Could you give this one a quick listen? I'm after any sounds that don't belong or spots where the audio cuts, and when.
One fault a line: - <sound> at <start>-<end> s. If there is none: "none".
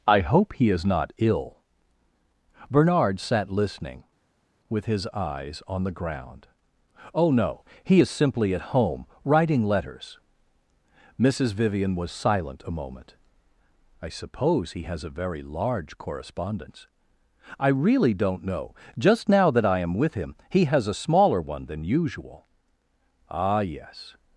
none